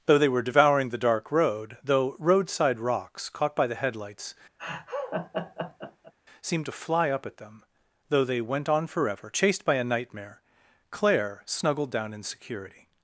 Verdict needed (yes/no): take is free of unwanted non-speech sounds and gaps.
no